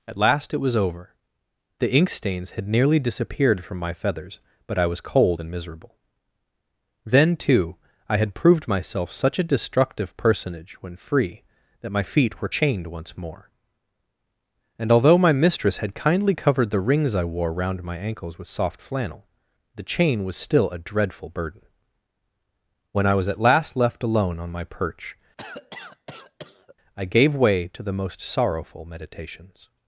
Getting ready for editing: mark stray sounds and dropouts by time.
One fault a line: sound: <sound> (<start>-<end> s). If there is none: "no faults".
sound: cough (25.4-26.8 s)